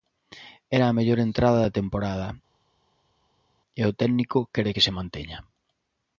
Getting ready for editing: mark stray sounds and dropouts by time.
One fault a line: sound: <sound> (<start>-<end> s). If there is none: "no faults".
no faults